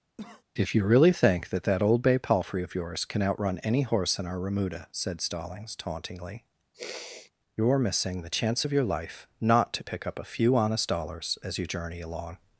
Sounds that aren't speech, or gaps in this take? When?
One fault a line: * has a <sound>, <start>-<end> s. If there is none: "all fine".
* has a cough, 0.2-0.4 s
* has a sniff, 6.7-7.3 s